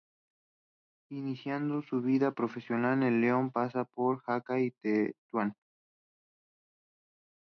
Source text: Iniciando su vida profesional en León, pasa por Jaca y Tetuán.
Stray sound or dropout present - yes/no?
no